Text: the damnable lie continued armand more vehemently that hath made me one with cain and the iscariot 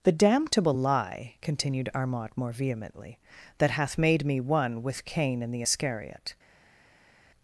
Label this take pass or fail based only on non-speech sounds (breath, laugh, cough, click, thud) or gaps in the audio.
pass